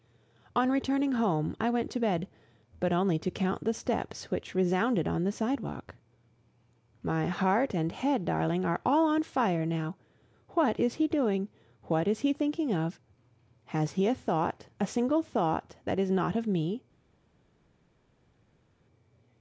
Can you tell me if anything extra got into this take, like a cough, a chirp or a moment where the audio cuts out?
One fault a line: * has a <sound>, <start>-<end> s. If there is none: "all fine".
all fine